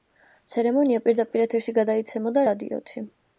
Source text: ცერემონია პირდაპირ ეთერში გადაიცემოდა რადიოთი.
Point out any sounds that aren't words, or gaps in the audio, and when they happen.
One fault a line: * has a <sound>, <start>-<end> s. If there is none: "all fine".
all fine